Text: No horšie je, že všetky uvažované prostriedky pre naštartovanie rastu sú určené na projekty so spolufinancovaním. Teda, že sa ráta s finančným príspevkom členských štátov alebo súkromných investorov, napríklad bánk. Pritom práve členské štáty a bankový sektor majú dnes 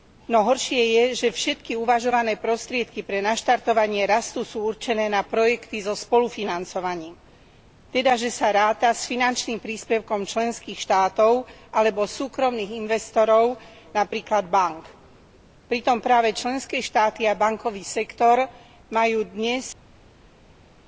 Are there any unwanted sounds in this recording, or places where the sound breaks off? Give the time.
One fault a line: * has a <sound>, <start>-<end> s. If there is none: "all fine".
all fine